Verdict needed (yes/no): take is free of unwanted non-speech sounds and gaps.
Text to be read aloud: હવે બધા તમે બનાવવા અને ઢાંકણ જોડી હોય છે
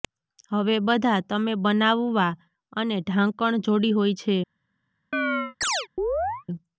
no